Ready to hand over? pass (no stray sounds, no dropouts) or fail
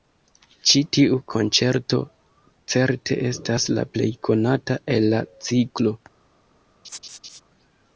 fail